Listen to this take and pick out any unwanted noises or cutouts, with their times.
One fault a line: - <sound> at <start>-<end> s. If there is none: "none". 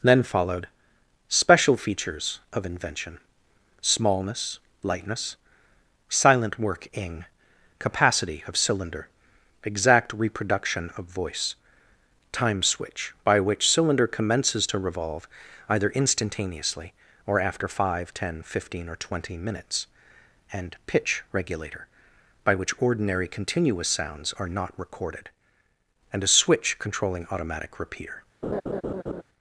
- laugh at 28.4-29.2 s